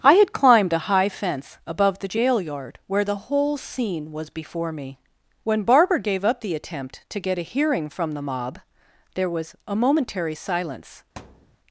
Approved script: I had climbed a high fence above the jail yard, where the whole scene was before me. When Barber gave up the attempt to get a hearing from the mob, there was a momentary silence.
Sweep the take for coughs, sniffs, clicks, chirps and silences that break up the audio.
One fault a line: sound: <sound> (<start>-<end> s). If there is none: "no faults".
sound: thud (11.2-11.6 s)